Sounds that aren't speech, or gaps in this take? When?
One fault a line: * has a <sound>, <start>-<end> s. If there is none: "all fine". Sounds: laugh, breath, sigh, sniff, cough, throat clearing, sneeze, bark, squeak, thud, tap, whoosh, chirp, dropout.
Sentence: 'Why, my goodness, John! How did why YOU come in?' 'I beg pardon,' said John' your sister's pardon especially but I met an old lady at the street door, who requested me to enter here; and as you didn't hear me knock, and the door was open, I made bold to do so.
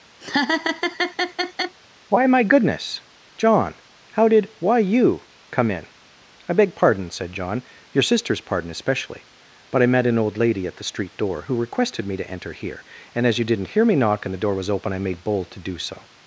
* has a laugh, 0.2-1.8 s